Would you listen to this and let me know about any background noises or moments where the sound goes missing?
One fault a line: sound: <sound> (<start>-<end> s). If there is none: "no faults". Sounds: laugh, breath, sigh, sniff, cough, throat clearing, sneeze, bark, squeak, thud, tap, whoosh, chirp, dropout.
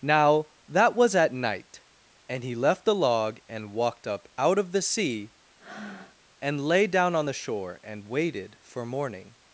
sound: breath (5.6-6.2 s)